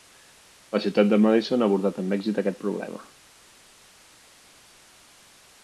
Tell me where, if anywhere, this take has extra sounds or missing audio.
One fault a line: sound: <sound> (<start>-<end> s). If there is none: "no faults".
no faults